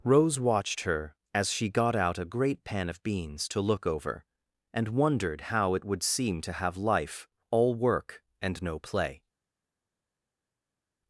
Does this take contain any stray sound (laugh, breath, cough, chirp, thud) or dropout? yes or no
no